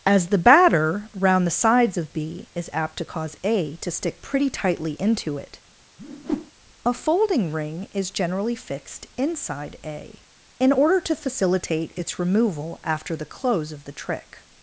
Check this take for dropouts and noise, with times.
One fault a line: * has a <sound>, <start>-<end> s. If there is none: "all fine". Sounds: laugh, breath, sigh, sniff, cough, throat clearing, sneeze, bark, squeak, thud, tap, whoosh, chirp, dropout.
* has a whoosh, 6.0-6.5 s